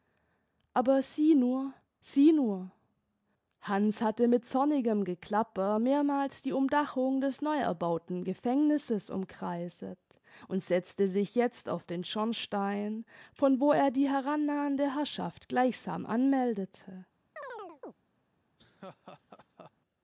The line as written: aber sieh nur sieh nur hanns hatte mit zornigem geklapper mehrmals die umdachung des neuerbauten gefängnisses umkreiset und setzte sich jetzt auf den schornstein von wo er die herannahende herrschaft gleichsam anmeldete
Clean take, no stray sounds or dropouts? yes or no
no